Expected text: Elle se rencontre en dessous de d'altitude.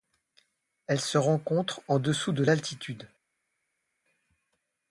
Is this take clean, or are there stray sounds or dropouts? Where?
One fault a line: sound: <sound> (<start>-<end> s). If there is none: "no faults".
no faults